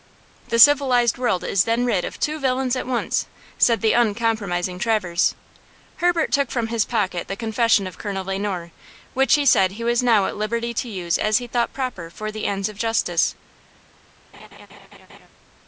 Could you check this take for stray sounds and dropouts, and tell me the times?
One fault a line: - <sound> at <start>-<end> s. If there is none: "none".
- laugh at 14.3-15.3 s